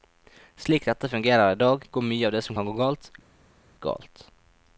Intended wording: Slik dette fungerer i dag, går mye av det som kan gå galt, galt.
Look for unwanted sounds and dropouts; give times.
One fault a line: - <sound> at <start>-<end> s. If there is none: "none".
none